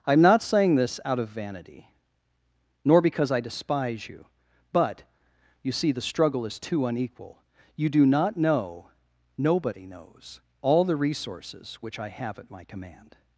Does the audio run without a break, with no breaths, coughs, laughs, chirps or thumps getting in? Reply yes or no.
yes